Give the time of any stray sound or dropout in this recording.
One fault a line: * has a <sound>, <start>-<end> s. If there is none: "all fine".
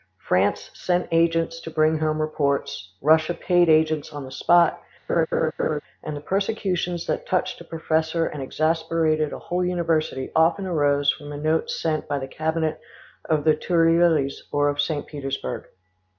* has a laugh, 5.1-5.8 s